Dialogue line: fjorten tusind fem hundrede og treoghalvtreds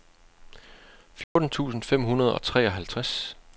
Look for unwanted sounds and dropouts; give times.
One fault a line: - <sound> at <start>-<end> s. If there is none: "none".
- dropout at 1.2-1.4 s